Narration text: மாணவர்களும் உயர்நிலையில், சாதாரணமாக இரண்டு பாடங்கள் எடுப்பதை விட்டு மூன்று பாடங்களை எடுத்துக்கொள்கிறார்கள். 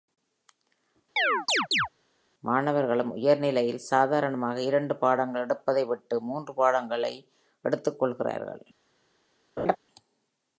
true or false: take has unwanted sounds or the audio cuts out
true